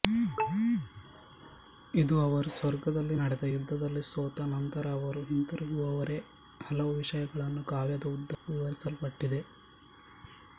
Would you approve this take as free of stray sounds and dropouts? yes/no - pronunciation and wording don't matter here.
no